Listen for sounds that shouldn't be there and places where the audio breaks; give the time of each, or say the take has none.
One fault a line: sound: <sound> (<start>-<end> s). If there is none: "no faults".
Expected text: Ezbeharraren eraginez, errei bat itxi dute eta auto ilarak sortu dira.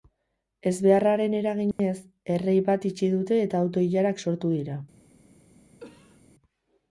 sound: dropout (1.7-1.8 s)
sound: cough (5.8-6.2 s)